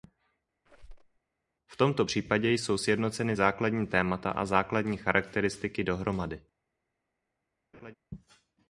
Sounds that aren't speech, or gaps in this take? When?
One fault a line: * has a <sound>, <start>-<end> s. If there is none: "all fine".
* has a squeak, 0.7-1.2 s
* has a laugh, 7.7-7.9 s